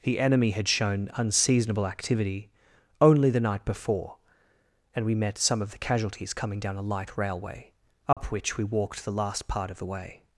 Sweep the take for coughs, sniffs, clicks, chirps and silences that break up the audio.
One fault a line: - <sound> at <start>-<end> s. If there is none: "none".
- dropout at 8.1-8.2 s